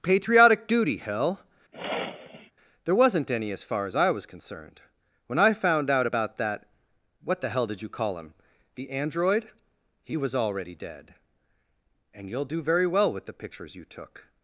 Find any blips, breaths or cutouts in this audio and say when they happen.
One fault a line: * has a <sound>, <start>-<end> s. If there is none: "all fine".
* has a sniff, 1.7-2.5 s